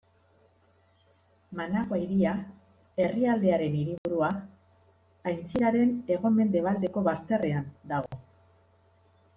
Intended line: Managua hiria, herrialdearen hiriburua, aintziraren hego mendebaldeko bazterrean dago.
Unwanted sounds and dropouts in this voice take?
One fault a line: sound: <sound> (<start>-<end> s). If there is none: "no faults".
sound: dropout (4.0-4.1 s)
sound: dropout (8.1-8.1 s)